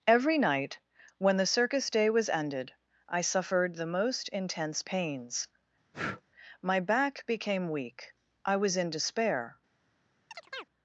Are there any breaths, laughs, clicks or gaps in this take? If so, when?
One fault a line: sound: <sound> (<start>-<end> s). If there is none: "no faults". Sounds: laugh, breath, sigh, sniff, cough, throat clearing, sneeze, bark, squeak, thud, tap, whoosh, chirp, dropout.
sound: breath (5.9-6.2 s)
sound: chirp (10.3-10.7 s)